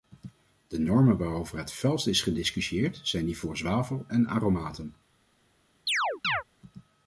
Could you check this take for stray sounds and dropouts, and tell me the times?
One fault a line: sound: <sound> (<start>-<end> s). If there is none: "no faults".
sound: chirp (5.9-6.4 s)